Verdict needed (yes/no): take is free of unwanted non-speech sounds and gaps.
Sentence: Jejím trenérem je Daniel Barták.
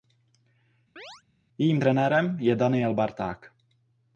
no